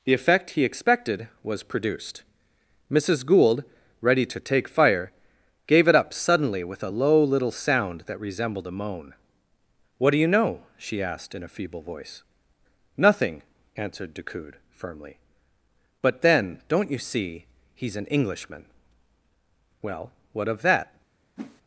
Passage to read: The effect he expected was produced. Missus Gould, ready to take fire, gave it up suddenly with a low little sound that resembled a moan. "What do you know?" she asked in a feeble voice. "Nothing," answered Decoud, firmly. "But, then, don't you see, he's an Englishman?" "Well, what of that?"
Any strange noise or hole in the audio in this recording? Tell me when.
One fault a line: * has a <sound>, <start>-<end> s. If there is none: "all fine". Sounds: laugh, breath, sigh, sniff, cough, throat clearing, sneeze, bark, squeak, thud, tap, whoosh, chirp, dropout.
* has a whoosh, 21.4-21.6 s